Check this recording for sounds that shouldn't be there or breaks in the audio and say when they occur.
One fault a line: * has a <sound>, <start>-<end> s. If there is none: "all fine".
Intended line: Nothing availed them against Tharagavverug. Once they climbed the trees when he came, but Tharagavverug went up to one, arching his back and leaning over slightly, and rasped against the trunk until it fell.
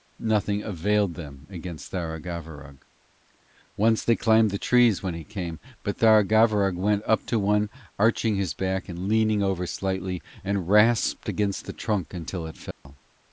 * has a dropout, 12.7-12.9 s